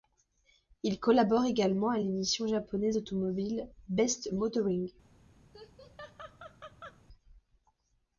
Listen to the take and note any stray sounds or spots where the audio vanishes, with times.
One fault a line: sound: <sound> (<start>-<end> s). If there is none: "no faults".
sound: laugh (5.5-7.0 s)